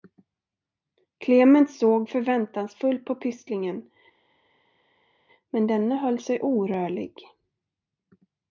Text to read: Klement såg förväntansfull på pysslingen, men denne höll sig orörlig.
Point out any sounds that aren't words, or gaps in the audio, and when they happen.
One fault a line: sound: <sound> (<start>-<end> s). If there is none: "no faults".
no faults